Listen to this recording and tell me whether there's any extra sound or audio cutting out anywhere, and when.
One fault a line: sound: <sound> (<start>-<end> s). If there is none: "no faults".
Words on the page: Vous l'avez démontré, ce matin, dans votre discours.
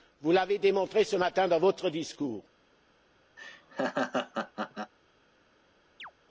sound: laugh (3.4-4.9 s)
sound: chirp (6.0-6.1 s)